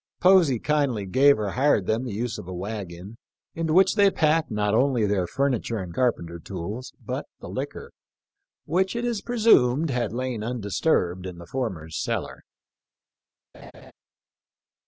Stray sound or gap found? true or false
true